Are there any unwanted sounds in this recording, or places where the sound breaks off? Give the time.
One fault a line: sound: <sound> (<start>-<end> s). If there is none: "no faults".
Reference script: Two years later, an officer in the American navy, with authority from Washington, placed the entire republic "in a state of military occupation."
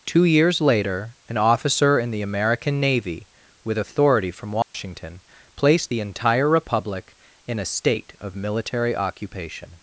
sound: dropout (4.6-4.7 s)